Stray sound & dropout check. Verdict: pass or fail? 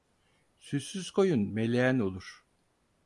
pass